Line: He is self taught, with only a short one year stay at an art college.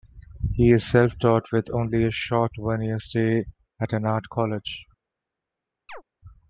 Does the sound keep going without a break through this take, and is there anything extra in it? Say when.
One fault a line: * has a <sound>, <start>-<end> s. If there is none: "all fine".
* has a chirp, 5.9-6.0 s